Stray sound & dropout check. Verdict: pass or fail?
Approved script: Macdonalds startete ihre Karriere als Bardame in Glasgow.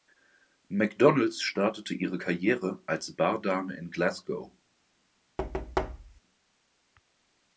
fail